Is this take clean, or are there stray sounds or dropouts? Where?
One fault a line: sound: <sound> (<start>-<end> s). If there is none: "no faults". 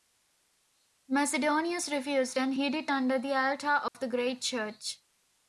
sound: dropout (3.9-3.9 s)